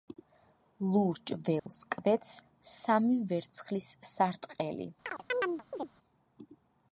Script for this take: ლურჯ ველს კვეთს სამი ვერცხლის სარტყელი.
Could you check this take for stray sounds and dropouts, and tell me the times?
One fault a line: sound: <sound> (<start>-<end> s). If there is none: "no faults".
sound: dropout (1.6-1.7 s)
sound: chirp (5.0-5.9 s)